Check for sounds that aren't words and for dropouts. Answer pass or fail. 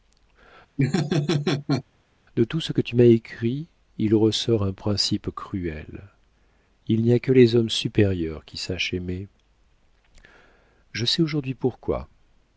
fail